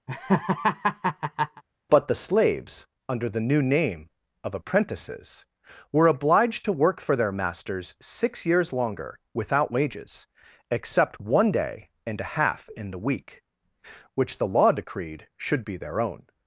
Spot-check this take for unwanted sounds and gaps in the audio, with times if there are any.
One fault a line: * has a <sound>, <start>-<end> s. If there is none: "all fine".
* has a laugh, 0.1-1.6 s